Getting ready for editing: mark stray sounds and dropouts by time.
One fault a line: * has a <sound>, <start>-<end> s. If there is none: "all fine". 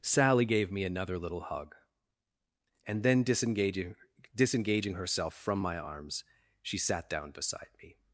all fine